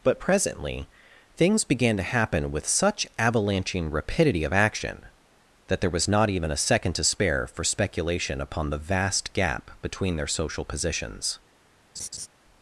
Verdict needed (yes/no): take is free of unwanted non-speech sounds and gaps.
no